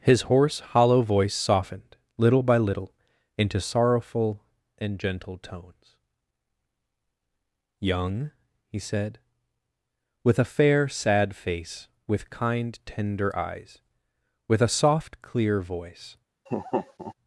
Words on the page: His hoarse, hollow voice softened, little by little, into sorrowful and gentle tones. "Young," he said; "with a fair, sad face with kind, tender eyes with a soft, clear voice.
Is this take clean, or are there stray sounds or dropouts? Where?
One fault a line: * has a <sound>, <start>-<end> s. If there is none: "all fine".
* has a laugh, 16.5-17.1 s